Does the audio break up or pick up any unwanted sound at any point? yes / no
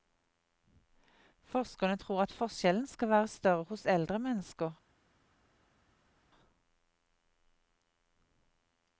no